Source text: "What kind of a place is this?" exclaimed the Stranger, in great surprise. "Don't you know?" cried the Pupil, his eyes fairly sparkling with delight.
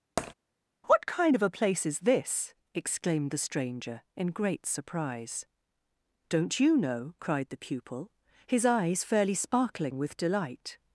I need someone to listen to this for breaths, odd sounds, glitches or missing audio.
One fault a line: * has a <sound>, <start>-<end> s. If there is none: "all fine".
* has a tap, 0.2-0.3 s